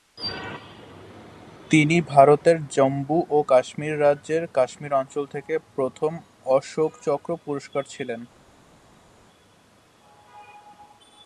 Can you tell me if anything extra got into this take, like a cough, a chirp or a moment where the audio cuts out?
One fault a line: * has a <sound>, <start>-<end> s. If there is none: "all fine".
all fine